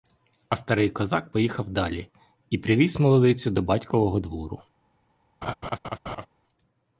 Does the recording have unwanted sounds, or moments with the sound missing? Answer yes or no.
yes